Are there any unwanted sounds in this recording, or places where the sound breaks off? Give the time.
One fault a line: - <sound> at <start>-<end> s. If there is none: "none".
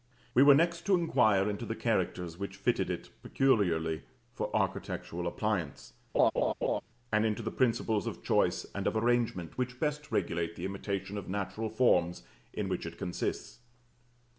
- laugh at 6.1-6.8 s